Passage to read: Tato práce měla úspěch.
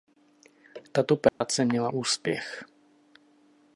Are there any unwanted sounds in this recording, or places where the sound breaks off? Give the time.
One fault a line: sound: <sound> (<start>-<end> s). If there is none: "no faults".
sound: dropout (1.3-1.4 s)